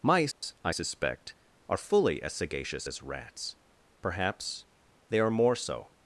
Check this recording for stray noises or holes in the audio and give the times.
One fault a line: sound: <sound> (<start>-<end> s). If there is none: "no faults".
sound: dropout (0.3-0.4 s)